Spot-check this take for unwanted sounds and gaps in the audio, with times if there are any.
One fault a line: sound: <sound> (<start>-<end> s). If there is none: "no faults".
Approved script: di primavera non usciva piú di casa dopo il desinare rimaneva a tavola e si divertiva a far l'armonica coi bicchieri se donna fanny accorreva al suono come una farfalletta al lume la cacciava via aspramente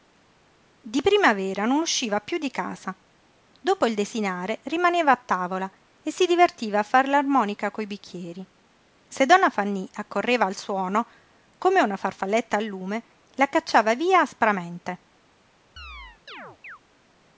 sound: chirp (15.8-16.8 s)